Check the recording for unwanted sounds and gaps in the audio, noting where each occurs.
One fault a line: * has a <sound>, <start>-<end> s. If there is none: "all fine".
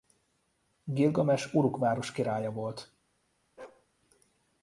* has a bark, 3.6-3.9 s